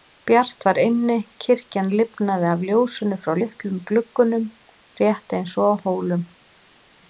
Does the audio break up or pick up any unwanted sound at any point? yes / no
no